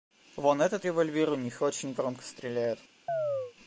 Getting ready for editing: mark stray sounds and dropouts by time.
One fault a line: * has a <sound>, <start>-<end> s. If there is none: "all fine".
* has a chirp, 3.1-3.5 s